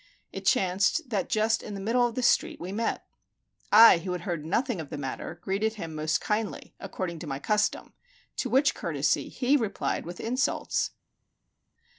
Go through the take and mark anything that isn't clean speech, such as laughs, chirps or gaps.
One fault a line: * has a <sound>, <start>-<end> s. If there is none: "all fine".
all fine